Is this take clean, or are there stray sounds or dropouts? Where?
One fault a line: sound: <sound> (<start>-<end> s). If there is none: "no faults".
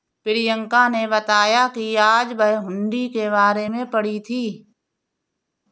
no faults